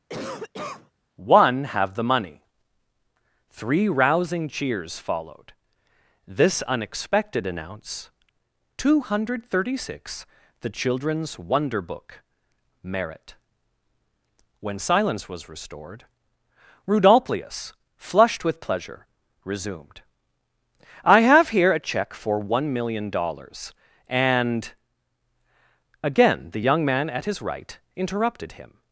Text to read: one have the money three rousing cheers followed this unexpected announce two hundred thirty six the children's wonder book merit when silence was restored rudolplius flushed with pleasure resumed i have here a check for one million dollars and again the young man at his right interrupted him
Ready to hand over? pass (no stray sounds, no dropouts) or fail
fail